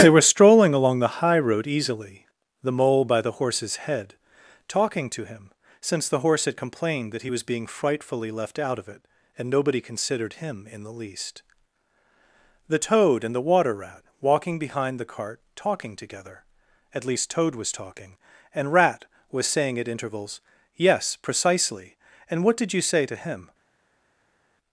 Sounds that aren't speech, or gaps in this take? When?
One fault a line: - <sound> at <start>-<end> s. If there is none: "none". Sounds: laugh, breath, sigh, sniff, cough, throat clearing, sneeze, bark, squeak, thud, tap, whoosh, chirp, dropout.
none